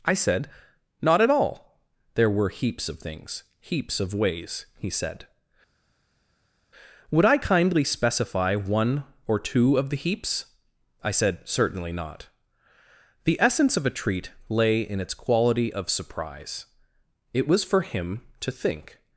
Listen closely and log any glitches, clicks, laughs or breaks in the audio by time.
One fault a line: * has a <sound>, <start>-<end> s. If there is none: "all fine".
all fine